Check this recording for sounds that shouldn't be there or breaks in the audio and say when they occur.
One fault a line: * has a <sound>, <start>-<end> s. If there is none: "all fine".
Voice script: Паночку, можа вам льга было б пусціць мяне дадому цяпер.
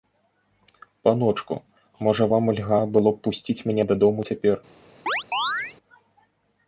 * has a chirp, 5.1-5.8 s